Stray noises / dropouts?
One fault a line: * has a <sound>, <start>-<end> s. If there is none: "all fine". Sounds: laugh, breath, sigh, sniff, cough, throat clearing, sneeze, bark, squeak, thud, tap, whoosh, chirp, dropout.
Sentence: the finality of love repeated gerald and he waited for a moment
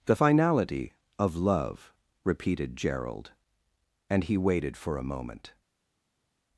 all fine